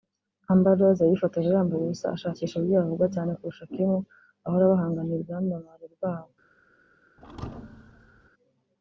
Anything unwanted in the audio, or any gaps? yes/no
yes